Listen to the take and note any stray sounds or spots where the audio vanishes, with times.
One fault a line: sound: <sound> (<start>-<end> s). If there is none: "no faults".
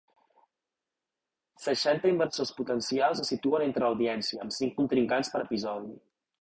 no faults